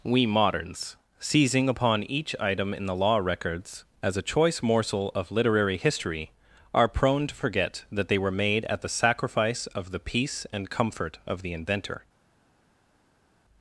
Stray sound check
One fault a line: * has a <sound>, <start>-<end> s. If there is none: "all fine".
all fine